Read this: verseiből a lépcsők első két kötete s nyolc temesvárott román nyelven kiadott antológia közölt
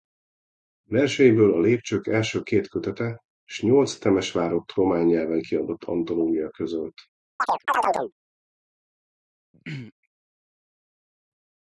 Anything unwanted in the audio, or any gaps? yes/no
yes